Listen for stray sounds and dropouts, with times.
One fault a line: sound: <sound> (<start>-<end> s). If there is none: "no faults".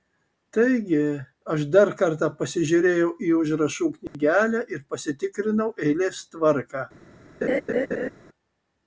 sound: dropout (4.1-4.1 s)
sound: laugh (7.4-8.1 s)